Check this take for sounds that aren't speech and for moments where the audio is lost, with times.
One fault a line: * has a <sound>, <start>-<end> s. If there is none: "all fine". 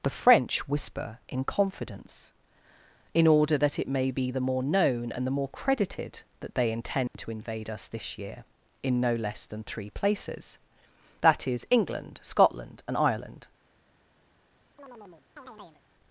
* has a dropout, 7.1-7.1 s
* has a chirp, 14.8-15.8 s